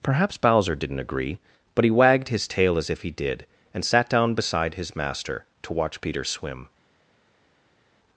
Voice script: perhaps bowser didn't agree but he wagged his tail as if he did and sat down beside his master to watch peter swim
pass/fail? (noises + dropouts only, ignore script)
pass